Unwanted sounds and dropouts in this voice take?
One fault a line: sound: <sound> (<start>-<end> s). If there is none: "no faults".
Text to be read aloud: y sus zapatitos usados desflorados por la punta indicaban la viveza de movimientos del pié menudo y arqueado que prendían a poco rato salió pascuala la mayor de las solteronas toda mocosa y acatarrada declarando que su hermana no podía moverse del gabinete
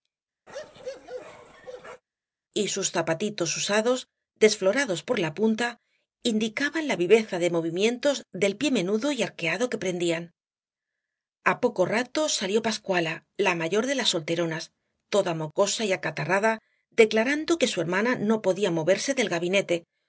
sound: bark (0.5-2.0 s)